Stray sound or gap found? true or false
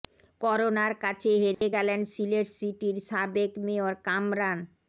true